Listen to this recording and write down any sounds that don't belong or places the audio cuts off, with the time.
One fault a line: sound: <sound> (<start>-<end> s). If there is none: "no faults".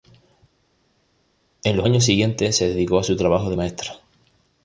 no faults